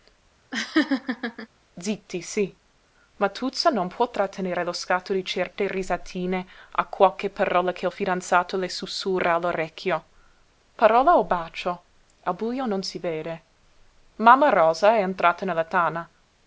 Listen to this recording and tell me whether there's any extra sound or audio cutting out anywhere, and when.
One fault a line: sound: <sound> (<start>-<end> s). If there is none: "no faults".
sound: laugh (0.5-1.5 s)